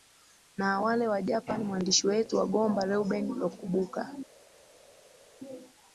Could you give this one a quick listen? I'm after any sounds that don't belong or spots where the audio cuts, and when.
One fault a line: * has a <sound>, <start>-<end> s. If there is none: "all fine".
all fine